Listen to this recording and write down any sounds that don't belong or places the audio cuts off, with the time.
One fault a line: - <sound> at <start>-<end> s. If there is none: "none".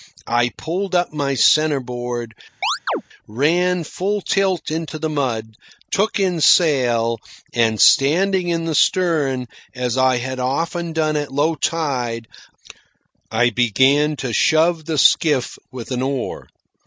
- chirp at 2.6-3.0 s